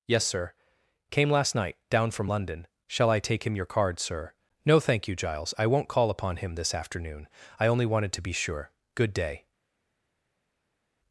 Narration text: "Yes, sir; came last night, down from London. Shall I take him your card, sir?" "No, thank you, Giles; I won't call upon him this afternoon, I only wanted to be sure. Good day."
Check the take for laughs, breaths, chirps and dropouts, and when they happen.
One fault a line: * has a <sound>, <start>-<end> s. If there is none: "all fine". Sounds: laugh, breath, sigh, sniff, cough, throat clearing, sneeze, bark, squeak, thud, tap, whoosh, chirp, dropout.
all fine